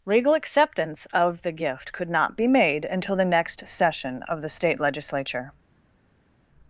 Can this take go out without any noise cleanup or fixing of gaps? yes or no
yes